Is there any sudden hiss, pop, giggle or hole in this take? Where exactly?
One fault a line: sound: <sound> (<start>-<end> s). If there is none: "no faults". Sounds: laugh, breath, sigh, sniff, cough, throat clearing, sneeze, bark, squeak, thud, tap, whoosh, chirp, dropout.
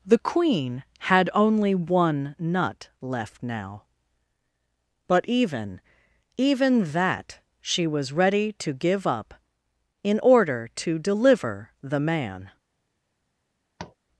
sound: tap (13.8-14.0 s)